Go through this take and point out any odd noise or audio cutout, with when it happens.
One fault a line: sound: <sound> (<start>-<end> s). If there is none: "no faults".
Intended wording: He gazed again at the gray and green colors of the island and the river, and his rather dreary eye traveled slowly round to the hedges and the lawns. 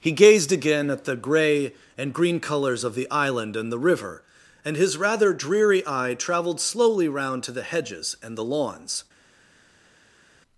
no faults